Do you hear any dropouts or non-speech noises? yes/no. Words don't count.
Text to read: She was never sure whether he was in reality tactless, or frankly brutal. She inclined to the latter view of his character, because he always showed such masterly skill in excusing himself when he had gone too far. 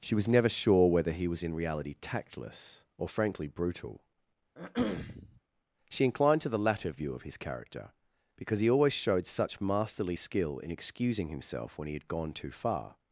yes